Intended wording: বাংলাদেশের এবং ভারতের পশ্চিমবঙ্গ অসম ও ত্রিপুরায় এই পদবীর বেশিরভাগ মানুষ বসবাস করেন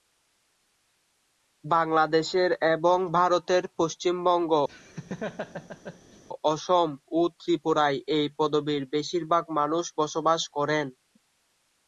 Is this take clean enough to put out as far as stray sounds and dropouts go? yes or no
no